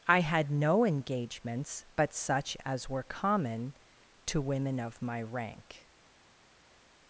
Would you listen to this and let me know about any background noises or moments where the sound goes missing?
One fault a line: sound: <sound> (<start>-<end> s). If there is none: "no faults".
no faults